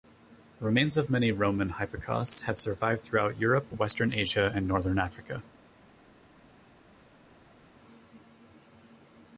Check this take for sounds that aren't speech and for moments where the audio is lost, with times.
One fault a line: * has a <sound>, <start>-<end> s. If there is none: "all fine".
all fine